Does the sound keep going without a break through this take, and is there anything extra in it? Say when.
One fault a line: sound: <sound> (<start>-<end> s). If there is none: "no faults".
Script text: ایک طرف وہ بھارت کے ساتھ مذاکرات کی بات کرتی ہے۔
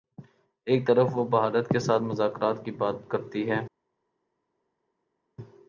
no faults